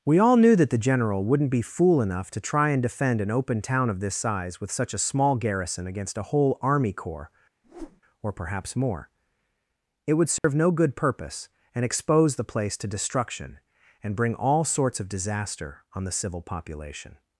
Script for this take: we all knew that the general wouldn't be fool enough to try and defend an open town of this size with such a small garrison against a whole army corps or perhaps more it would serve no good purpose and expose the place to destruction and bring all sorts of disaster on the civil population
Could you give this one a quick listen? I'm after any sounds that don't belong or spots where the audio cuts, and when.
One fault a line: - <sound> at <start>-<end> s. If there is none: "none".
- whoosh at 7.6-8.0 s
- dropout at 10.4-10.4 s